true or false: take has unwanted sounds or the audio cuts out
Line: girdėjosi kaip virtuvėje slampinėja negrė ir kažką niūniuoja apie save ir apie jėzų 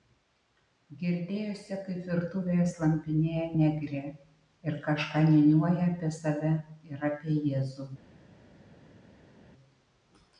false